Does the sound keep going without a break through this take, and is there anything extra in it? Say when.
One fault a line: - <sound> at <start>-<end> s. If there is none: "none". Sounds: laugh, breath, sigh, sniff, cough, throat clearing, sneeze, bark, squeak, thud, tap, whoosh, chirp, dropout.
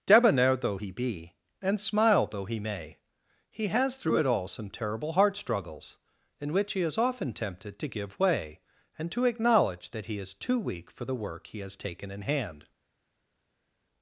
none